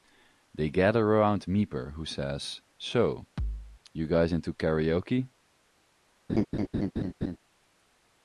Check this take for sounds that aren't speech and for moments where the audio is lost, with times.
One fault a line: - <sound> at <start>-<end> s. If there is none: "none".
- thud at 3.4-3.8 s
- laugh at 6.3-7.4 s